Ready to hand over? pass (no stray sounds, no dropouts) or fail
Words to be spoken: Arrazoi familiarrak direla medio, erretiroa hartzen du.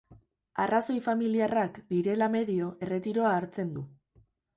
pass